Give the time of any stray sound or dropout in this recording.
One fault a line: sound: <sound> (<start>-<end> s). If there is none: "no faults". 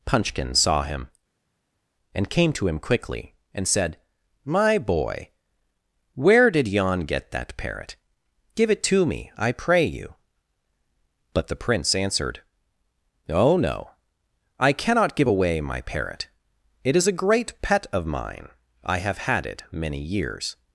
no faults